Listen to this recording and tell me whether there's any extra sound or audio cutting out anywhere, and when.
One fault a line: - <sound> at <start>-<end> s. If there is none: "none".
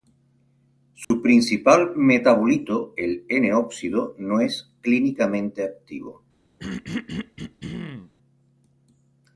- dropout at 1.0-1.1 s
- throat clearing at 6.6-8.1 s